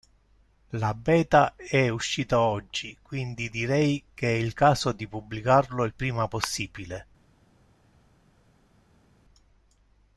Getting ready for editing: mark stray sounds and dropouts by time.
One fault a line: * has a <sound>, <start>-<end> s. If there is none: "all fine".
all fine